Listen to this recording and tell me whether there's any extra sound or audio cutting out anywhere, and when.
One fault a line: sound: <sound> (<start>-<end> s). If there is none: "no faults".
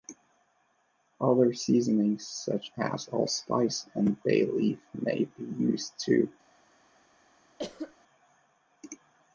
sound: cough (7.6-8.0 s)